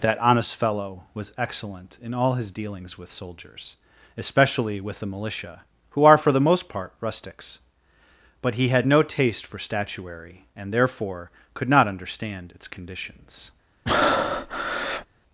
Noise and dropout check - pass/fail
fail